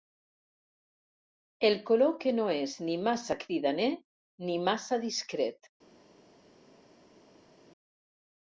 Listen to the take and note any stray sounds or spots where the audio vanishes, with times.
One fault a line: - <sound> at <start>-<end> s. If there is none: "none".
none